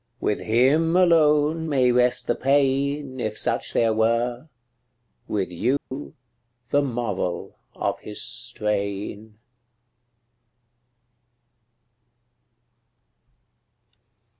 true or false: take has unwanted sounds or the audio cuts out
true